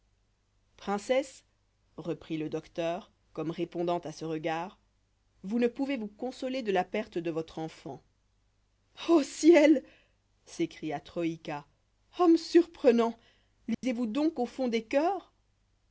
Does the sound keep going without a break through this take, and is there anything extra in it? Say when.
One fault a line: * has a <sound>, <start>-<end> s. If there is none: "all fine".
* has a dropout, 13.7-13.8 s